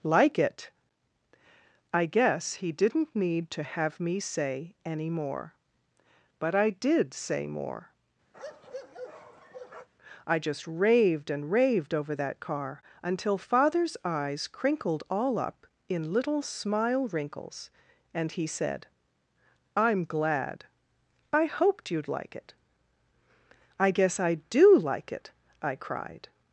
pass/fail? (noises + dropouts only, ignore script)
fail